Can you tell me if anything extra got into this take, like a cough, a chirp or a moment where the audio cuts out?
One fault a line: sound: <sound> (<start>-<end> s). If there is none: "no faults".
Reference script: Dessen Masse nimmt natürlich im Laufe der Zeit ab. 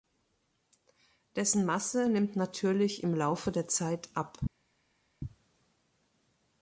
no faults